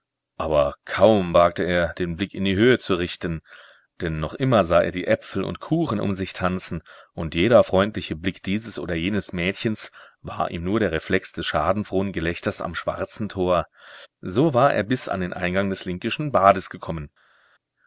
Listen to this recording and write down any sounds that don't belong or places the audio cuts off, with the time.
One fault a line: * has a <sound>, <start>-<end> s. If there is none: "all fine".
all fine